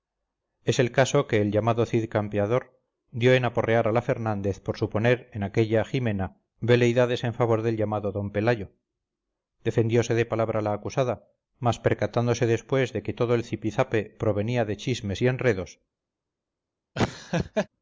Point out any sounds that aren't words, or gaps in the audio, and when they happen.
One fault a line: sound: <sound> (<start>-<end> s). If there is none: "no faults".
sound: laugh (17.0-17.7 s)